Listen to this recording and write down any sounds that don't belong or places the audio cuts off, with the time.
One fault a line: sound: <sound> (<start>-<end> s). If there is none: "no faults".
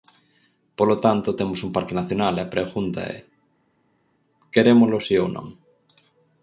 no faults